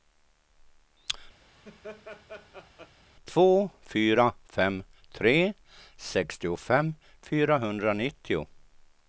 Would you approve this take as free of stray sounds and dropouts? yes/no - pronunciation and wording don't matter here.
no